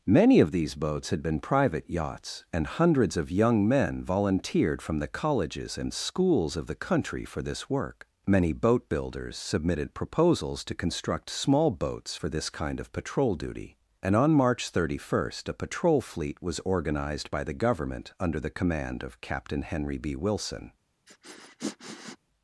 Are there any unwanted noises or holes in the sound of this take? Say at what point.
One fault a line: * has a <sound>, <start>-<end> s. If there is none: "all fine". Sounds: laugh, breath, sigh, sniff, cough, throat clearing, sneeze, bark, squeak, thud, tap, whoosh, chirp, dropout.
* has a sniff, 21.1-22.2 s